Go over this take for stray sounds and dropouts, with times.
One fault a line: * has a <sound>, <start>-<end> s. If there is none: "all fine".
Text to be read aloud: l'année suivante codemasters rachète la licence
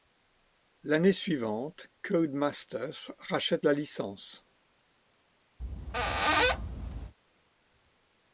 * has a squeak, 5.6-7.1 s